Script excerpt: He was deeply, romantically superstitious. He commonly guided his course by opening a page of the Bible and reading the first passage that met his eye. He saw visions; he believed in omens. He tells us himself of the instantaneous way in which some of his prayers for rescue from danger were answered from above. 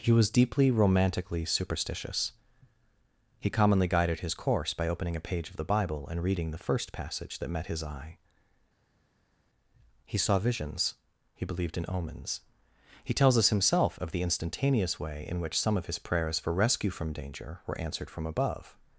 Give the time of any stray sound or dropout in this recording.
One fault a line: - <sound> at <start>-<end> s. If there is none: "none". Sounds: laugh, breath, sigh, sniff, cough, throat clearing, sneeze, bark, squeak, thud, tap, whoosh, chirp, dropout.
none